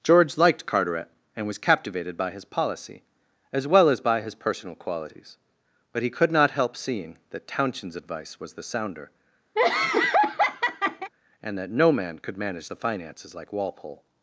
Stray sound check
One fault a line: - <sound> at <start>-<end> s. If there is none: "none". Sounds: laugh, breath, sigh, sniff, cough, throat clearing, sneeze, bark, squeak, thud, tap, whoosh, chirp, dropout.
- laugh at 9.6-11.1 s